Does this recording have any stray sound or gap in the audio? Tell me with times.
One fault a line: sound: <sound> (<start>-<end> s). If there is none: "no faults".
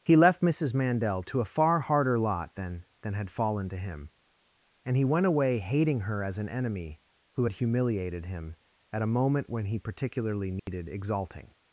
sound: dropout (10.6-10.7 s)